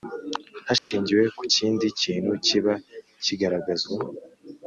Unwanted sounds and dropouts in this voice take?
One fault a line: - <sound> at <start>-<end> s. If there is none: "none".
- dropout at 0.8-0.9 s